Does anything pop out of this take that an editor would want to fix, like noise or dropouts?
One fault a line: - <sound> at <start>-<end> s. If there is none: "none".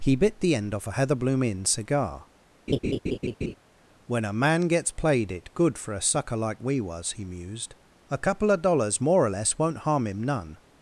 - laugh at 2.7-3.5 s